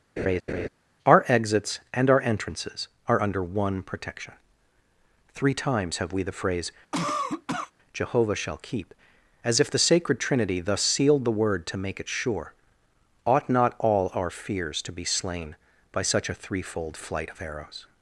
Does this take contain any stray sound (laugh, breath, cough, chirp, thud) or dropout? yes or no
yes